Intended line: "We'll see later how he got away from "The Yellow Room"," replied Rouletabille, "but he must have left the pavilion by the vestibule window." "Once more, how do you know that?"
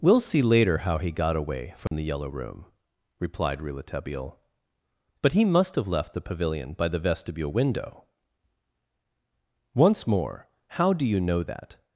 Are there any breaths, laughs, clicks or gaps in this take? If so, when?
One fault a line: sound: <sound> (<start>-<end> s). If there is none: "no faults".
sound: dropout (1.9-1.9 s)